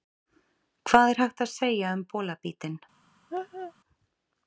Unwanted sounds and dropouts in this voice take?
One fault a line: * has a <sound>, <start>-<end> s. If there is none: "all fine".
* has a laugh, 3.3-3.7 s